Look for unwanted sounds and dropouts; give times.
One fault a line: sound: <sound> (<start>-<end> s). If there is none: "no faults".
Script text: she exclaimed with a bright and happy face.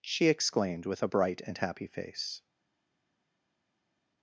no faults